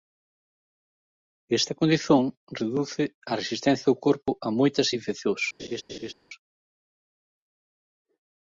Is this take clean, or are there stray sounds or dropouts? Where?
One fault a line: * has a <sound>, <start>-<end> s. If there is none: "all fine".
* has a laugh, 5.6-6.1 s